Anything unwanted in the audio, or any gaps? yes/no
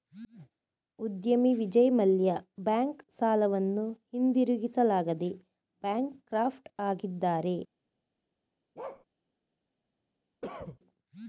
yes